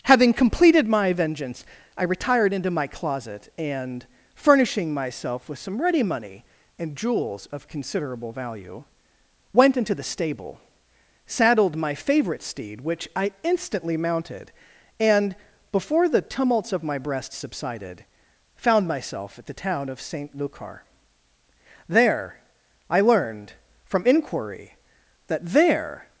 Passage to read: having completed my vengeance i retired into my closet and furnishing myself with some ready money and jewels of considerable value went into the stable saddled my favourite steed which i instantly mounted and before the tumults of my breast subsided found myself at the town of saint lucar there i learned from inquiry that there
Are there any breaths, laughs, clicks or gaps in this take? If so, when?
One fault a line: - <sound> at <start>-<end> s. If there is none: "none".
none